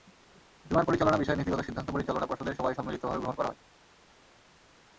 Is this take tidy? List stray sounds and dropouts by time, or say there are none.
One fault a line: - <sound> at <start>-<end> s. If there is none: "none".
none